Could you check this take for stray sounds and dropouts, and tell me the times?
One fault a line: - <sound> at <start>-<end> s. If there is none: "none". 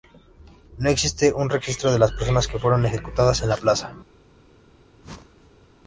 - whoosh at 5.0-5.7 s